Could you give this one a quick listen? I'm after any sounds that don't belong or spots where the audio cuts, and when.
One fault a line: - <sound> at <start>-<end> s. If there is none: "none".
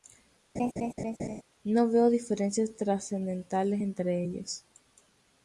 - laugh at 0.6-1.4 s